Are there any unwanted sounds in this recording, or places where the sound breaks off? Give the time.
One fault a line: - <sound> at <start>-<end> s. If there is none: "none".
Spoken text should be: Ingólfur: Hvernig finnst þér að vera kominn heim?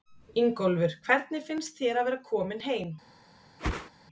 - whoosh at 3.6-3.9 s